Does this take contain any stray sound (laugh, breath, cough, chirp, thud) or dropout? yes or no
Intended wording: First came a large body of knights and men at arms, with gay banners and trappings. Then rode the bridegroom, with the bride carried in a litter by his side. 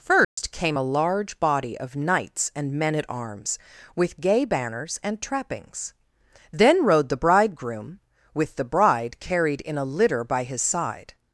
yes